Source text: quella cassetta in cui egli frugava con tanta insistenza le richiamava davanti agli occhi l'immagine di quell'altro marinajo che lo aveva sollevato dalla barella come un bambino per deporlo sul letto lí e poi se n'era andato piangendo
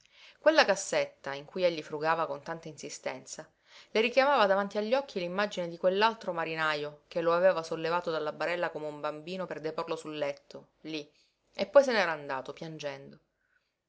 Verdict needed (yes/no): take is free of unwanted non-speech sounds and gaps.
yes